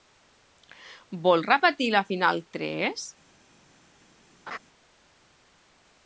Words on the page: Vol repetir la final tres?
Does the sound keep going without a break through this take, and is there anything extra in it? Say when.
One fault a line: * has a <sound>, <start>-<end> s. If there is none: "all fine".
* has a laugh, 4.5-4.6 s